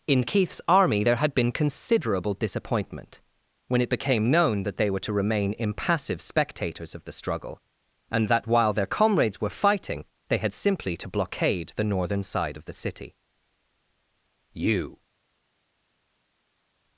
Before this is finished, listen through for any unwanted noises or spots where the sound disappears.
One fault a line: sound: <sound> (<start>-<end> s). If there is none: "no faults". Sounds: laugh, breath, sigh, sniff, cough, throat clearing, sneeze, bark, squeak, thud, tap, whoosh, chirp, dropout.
no faults